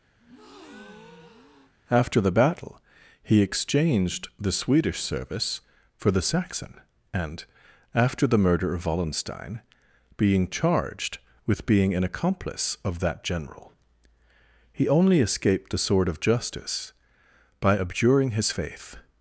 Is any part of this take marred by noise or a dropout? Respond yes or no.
yes